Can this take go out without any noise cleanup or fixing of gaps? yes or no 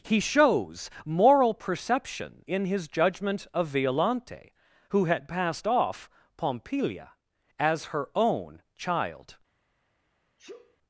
no